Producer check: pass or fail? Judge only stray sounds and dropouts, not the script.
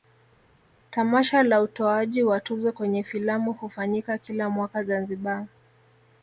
pass